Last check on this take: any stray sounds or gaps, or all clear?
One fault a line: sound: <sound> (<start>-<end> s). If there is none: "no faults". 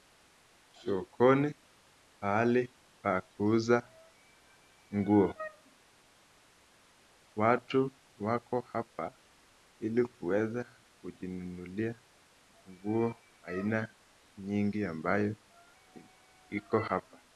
no faults